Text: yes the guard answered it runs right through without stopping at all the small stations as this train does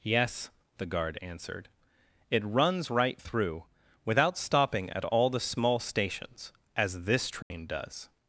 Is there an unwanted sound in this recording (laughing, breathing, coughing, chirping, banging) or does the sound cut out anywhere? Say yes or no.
yes